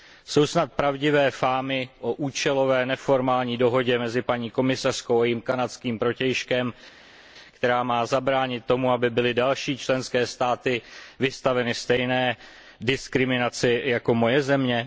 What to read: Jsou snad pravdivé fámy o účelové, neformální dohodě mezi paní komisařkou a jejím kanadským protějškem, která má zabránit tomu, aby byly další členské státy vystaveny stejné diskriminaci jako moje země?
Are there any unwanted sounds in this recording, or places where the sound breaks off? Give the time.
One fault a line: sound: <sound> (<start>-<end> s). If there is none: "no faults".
no faults